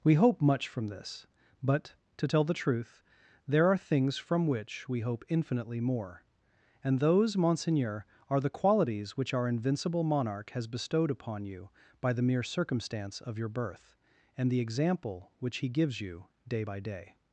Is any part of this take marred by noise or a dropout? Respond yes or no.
no